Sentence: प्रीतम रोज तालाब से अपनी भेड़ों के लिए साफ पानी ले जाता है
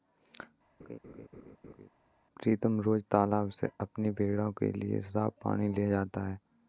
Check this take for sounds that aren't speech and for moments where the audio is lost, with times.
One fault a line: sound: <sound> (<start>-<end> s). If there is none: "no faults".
sound: laugh (0.8-1.9 s)